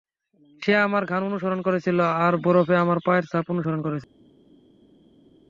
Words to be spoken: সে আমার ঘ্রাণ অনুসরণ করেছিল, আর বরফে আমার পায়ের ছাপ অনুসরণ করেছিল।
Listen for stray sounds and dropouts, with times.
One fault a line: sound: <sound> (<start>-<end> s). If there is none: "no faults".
no faults